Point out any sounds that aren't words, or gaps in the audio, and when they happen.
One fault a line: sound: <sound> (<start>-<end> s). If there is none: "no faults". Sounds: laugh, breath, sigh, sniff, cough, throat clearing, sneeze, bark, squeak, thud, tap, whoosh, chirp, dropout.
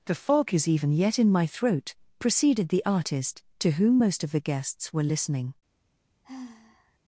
sound: sigh (6.2-7.0 s)